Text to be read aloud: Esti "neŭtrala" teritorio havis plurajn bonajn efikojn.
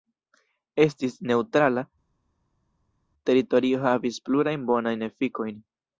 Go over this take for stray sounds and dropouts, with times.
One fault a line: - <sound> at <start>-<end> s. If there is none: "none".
none